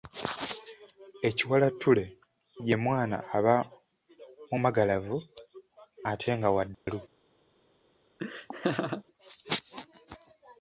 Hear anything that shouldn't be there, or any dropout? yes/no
yes